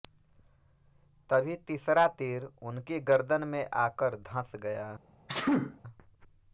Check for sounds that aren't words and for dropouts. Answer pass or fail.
fail